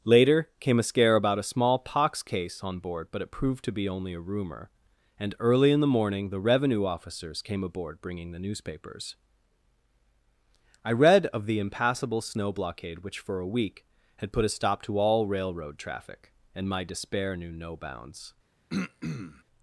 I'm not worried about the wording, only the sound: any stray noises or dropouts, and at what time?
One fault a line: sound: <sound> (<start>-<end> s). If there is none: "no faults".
sound: throat clearing (18.7-19.4 s)